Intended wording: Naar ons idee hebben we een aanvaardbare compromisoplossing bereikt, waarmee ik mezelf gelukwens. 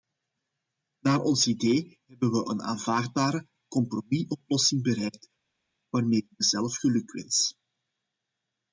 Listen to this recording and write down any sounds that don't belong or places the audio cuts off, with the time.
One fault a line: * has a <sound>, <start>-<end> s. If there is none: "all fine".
all fine